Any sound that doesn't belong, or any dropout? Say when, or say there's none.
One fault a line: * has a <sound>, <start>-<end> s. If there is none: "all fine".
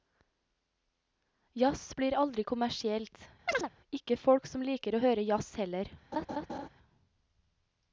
* has a chirp, 3.5-3.7 s
* has a laugh, 6.1-6.7 s